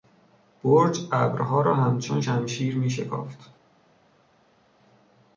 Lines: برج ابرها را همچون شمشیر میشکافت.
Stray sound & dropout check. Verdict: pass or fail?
pass